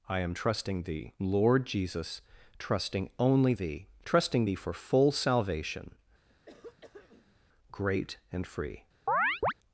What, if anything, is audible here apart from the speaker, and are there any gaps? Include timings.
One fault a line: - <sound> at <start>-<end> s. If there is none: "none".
- throat clearing at 6.3-7.4 s
- chirp at 9.1-9.5 s